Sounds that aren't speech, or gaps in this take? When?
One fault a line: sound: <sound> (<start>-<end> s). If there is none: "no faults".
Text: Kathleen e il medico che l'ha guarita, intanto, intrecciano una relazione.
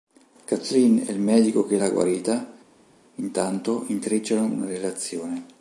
no faults